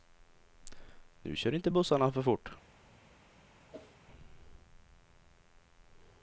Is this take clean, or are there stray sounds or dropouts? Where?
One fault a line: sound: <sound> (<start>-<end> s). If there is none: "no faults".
sound: whoosh (3.7-4.0 s)